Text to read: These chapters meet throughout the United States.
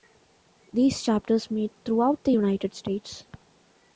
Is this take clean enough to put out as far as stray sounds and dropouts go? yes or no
yes